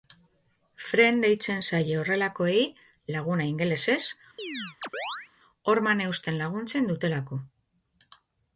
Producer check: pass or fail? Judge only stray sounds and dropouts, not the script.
fail